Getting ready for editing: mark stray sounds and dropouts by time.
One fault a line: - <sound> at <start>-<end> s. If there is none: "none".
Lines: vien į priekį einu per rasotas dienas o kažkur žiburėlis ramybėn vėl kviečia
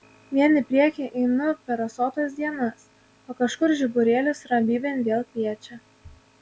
none